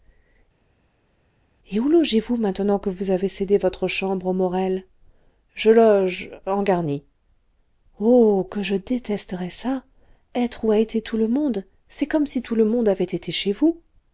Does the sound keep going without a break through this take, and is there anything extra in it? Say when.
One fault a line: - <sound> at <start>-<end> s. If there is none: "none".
none